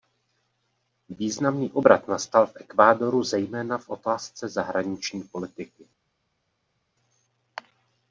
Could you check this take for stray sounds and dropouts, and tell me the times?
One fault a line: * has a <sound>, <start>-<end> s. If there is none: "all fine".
all fine